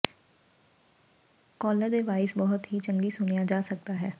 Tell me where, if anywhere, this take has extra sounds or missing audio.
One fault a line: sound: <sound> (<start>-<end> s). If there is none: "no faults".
no faults